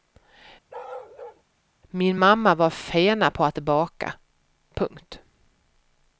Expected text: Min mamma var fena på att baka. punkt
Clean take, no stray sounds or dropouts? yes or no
no